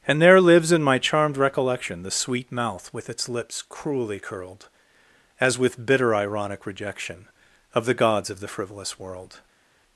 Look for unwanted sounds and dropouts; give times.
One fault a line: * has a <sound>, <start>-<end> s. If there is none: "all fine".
all fine